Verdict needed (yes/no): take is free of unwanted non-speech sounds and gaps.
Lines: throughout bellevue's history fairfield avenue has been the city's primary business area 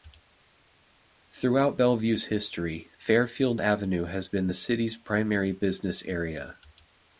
yes